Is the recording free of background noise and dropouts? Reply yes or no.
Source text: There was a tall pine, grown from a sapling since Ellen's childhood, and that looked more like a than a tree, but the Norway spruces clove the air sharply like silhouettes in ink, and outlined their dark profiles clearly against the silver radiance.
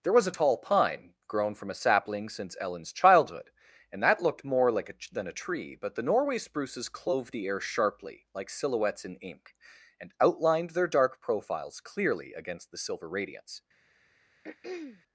no